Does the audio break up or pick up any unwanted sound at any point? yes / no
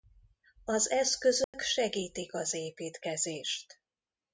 yes